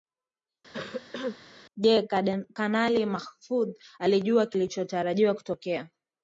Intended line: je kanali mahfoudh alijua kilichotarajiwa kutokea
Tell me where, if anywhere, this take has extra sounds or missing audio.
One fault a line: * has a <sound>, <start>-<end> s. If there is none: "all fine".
* has a cough, 0.7-1.4 s